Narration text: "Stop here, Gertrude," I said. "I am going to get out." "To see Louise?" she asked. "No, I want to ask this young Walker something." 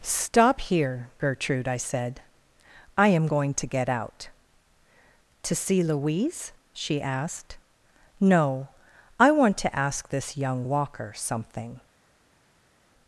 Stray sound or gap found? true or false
false